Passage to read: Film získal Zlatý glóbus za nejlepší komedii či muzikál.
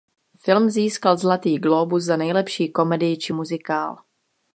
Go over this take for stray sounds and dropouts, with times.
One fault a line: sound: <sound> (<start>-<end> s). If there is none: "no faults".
no faults